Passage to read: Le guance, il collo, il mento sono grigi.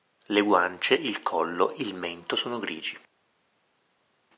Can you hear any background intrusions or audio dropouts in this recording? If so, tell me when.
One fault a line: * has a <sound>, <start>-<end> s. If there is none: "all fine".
all fine